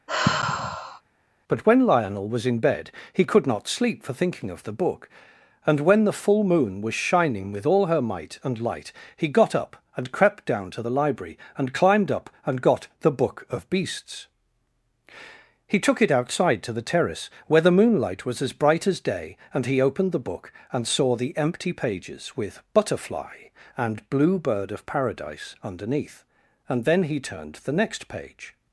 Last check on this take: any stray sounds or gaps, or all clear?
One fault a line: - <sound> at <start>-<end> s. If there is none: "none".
- sigh at 0.1-1.0 s